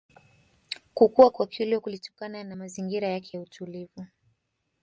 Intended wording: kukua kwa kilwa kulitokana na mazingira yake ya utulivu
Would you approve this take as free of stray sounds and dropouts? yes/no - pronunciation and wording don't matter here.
yes